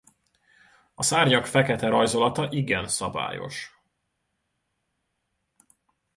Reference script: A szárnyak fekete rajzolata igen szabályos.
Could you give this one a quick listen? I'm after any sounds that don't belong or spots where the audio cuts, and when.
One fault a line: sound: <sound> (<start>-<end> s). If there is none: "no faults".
no faults